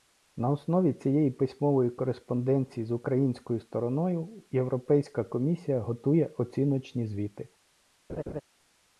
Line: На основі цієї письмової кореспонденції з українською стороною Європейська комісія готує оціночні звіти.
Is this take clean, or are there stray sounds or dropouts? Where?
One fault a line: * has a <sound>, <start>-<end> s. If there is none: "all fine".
* has a laugh, 8.1-8.4 s